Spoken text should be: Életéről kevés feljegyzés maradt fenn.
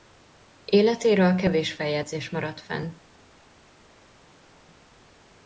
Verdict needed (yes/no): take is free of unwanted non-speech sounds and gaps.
yes